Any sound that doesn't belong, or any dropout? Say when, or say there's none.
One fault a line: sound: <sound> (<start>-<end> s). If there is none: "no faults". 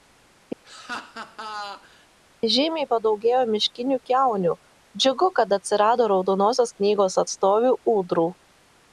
sound: laugh (0.6-2.1 s)